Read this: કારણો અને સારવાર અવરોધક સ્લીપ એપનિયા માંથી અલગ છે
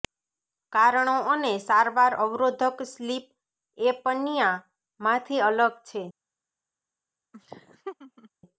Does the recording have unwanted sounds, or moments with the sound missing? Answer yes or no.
yes